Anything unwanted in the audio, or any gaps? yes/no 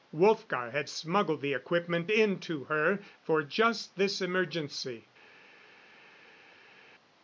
no